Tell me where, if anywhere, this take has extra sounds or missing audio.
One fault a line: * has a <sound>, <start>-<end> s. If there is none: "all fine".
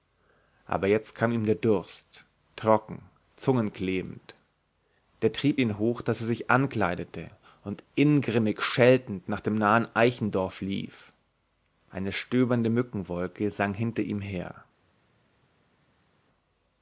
all fine